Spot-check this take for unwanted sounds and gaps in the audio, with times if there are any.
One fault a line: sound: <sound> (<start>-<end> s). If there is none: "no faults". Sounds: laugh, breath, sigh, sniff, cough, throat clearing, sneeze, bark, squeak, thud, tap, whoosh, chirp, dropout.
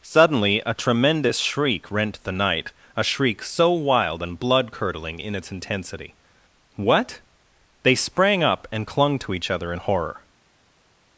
no faults